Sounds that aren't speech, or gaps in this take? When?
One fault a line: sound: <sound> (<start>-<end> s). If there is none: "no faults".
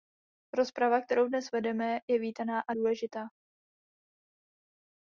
no faults